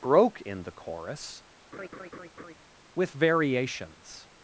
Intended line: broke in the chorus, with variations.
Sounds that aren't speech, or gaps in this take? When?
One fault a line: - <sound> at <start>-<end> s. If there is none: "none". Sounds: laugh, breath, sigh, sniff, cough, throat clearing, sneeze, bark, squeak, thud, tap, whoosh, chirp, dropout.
- laugh at 1.7-2.5 s